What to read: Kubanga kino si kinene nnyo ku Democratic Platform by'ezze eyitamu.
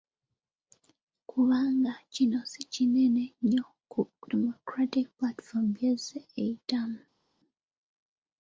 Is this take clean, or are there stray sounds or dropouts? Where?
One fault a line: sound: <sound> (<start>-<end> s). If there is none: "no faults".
no faults